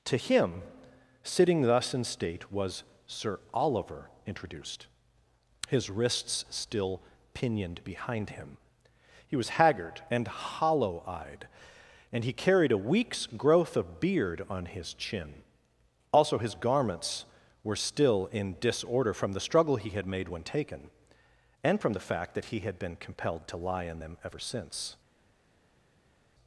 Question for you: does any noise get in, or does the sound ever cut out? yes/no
no